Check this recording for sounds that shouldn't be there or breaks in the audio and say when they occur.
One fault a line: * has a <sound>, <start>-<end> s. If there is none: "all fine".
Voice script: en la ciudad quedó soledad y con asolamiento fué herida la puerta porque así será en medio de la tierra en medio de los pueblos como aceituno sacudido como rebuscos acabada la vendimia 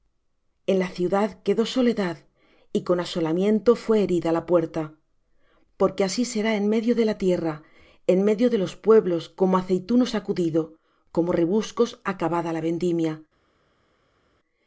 all fine